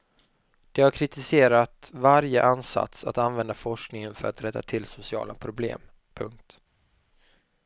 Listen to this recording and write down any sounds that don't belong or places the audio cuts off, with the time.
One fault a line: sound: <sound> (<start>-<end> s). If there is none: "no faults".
no faults